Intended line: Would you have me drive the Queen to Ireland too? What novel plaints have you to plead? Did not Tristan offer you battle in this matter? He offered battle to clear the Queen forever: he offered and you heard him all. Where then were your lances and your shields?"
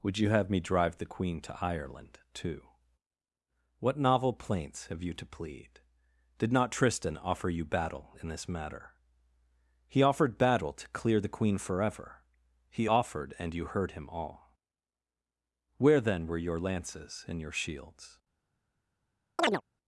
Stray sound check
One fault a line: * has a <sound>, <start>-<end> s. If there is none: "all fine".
* has a chirp, 19.4-19.6 s